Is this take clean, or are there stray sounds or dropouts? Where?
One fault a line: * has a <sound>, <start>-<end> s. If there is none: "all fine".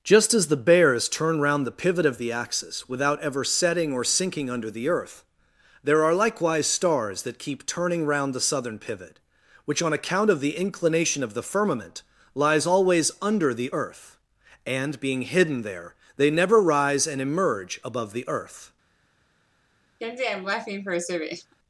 * has a laugh, 20.0-21.6 s